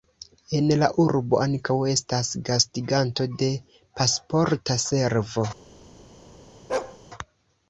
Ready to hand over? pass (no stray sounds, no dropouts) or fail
fail